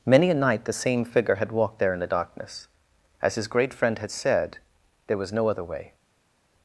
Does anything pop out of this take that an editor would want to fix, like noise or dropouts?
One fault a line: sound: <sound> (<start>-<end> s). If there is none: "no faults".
no faults